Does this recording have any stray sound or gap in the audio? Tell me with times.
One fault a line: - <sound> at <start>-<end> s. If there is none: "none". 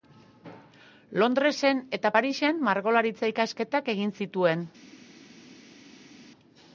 none